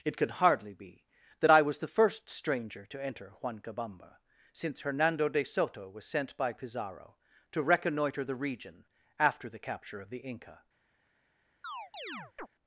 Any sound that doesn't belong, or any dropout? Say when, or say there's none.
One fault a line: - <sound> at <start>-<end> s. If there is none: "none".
- chirp at 11.6-12.5 s